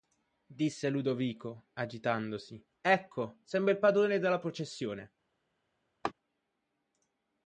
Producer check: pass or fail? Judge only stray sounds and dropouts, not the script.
fail